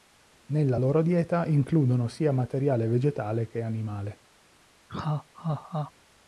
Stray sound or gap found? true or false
true